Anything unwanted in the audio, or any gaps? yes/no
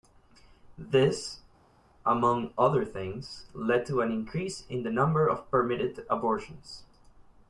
no